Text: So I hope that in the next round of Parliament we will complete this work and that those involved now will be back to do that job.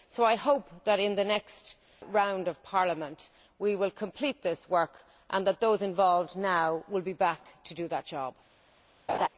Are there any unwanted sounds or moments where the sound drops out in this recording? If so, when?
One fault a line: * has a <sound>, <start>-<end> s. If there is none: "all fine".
* has a laugh, 9.1-9.3 s